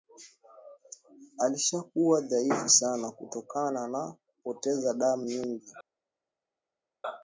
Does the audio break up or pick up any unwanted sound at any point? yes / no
no